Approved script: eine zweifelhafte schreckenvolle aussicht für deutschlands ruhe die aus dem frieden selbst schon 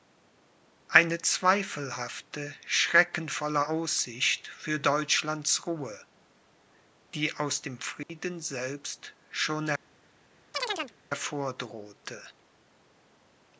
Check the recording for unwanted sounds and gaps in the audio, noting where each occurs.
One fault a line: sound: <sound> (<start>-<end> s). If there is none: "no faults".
sound: dropout (8.0-8.1 s)
sound: chirp (10.5-10.9 s)